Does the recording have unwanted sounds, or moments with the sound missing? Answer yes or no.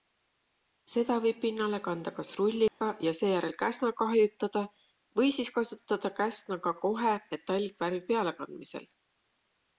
yes